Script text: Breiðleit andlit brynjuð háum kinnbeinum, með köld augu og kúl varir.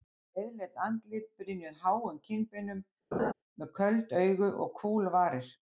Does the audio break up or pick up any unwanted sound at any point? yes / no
yes